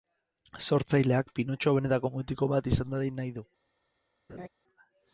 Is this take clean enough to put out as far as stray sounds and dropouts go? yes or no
no